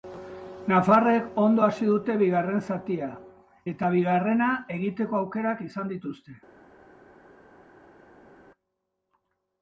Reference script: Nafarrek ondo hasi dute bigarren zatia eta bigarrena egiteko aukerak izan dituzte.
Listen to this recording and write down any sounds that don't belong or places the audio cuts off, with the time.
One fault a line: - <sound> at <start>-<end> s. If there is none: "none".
none